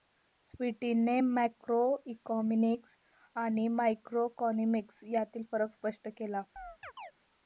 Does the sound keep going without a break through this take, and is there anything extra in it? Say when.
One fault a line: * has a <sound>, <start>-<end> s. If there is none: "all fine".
* has a chirp, 6.6-7.1 s